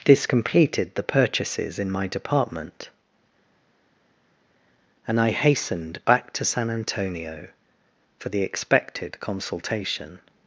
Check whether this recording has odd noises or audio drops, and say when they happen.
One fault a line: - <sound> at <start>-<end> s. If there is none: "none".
none